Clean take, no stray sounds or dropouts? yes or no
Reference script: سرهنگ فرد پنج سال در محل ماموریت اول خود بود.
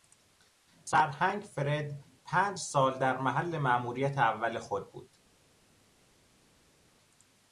yes